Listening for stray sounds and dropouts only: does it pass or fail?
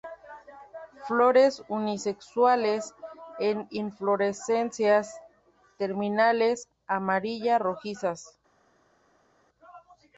pass